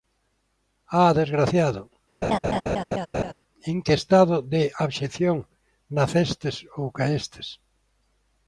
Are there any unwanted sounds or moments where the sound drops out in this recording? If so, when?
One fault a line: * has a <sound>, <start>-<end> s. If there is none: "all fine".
* has a laugh, 2.2-3.3 s